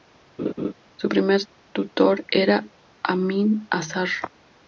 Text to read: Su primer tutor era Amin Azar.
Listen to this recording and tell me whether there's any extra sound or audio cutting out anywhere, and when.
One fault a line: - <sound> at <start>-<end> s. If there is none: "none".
- laugh at 0.4-0.7 s